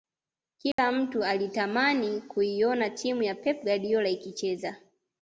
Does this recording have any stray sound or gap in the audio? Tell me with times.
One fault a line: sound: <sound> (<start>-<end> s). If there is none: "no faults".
sound: dropout (0.7-0.8 s)